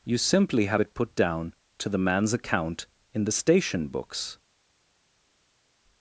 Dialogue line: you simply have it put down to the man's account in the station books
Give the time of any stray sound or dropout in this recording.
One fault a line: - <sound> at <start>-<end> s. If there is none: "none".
none